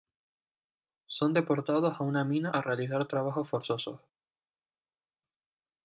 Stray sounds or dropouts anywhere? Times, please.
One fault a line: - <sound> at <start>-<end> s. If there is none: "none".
none